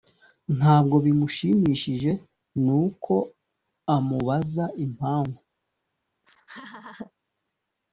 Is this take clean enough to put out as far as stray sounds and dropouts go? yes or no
no